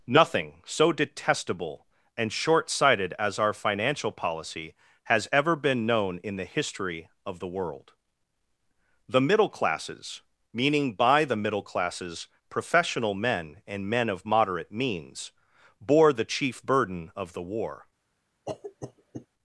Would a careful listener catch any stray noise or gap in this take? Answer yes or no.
yes